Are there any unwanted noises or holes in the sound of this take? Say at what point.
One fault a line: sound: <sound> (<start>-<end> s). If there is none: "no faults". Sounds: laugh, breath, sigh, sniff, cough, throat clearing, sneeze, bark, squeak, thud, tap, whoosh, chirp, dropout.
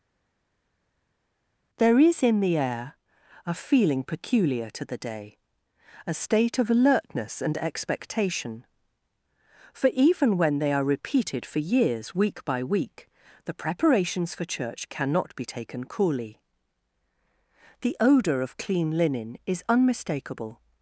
no faults